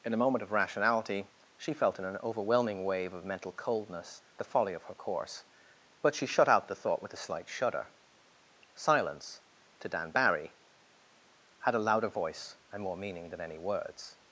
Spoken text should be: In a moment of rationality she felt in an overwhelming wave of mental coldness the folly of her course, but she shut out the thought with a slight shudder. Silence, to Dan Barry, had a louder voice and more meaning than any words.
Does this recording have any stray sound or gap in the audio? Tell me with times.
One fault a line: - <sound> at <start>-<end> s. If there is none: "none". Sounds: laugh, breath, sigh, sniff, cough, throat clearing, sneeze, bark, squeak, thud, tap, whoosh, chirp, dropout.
none